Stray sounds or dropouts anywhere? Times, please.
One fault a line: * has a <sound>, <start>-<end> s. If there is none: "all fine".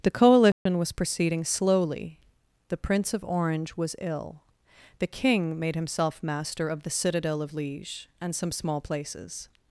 * has a dropout, 0.5-0.7 s